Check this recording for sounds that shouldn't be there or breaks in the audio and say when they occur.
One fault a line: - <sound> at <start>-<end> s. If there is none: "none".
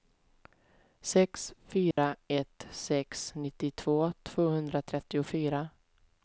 - dropout at 1.9-2.0 s